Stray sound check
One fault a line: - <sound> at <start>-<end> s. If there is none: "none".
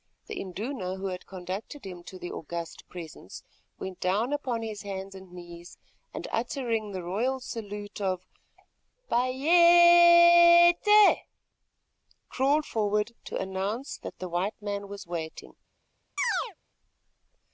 - chirp at 16.2-16.6 s